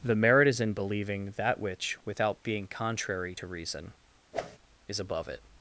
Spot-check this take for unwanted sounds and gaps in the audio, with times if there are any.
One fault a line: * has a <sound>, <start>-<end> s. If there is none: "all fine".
* has a whoosh, 4.3-4.6 s